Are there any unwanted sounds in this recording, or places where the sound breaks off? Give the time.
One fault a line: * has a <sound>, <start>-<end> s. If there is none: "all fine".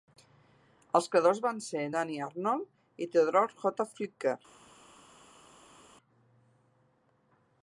all fine